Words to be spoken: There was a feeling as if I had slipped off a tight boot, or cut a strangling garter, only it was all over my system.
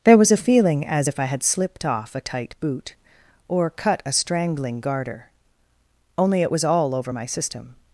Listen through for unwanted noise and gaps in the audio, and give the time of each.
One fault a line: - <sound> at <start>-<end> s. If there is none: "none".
none